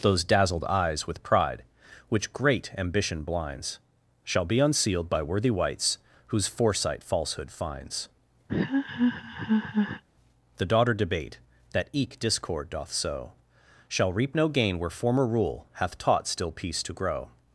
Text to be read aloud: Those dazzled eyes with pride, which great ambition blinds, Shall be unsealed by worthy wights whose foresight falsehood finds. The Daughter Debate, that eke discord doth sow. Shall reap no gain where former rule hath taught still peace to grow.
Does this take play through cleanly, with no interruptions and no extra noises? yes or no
no